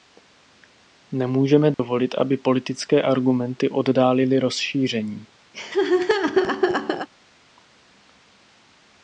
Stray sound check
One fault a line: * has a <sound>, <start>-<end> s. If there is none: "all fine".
* has a dropout, 1.7-1.8 s
* has a laugh, 5.5-7.1 s